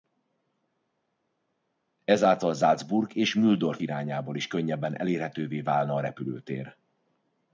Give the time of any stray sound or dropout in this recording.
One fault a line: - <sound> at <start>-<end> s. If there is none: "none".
none